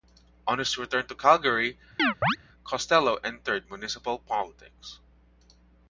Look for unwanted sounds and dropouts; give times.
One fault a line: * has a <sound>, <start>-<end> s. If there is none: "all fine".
* has a chirp, 2.0-2.4 s